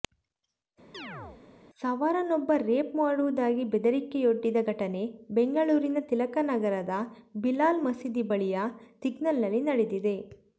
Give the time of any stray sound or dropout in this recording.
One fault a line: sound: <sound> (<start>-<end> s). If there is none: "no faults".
sound: chirp (0.9-1.4 s)